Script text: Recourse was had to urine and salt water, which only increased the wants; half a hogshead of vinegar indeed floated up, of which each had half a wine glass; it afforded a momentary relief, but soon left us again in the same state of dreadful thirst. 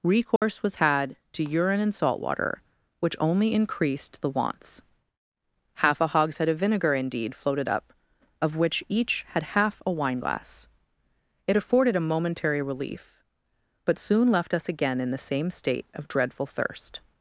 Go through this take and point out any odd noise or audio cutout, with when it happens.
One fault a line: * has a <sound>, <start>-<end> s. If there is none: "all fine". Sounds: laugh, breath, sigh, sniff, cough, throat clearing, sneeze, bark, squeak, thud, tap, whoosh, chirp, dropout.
* has a dropout, 0.4-0.4 s